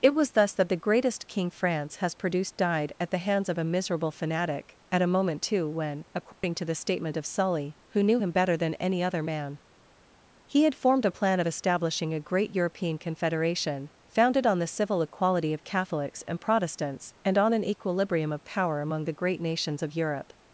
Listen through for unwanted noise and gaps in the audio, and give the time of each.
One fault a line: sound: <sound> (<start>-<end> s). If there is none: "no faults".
sound: dropout (6.3-6.4 s)